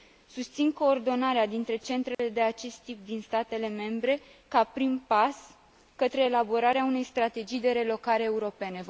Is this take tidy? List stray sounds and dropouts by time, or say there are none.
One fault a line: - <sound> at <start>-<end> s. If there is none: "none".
- dropout at 2.1-2.2 s